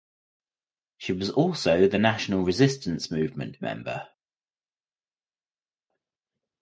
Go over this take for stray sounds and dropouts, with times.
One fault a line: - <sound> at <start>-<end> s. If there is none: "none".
none